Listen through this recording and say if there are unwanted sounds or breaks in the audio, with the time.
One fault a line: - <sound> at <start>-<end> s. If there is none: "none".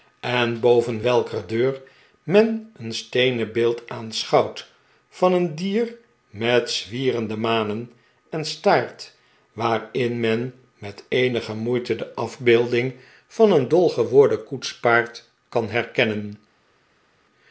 none